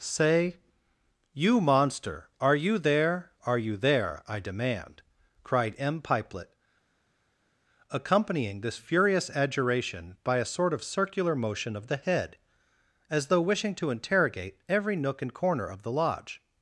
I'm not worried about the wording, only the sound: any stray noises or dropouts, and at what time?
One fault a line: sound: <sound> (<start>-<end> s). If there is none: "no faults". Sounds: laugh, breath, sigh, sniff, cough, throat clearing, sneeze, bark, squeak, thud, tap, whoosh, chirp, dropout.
no faults